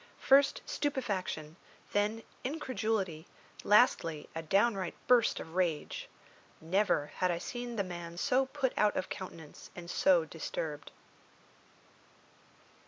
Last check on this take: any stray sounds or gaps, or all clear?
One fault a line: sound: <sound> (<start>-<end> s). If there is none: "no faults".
no faults